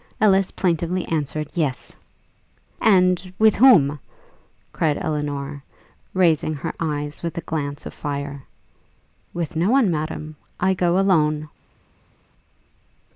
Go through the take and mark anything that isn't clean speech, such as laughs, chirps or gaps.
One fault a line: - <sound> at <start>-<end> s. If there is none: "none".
none